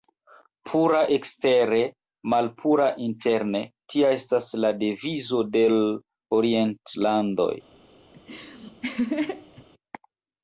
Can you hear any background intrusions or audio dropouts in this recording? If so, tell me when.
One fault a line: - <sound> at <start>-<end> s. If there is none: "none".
- laugh at 8.1-9.7 s